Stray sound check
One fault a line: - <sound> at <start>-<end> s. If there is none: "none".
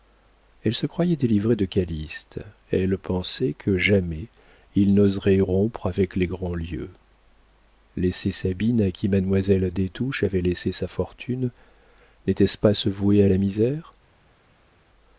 none